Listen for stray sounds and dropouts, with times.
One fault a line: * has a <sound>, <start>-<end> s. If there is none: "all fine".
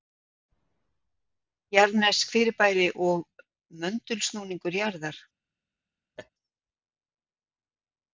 * has a laugh, 6.2-6.3 s